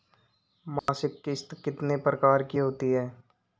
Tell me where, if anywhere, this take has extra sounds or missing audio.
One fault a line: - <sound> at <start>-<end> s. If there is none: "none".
- dropout at 0.8-0.9 s